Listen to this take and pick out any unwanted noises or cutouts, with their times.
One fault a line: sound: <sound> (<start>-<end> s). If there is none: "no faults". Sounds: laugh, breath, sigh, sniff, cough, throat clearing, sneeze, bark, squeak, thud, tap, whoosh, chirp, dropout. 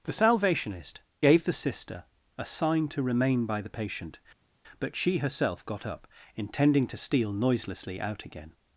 no faults